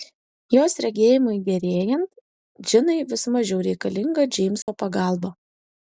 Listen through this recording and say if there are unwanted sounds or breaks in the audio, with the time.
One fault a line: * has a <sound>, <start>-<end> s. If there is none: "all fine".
* has a dropout, 4.6-4.7 s